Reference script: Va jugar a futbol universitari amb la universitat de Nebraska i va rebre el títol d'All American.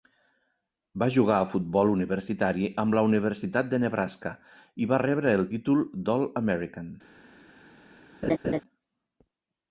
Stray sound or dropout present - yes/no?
yes